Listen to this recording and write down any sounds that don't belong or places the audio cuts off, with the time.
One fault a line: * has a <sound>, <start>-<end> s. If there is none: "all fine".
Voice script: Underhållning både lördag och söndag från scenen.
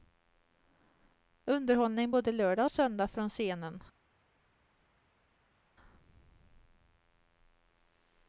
all fine